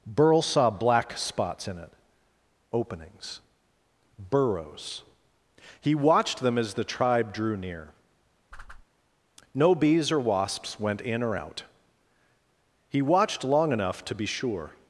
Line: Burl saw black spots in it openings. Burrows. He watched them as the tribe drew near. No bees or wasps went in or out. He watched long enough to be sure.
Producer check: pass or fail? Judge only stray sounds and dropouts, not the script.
fail